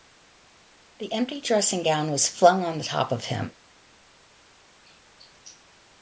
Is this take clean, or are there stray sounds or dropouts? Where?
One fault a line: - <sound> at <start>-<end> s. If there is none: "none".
none